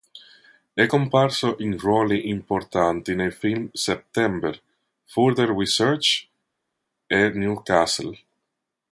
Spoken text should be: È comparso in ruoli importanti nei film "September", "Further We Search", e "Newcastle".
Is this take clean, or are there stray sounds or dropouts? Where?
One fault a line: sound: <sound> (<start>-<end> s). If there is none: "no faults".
no faults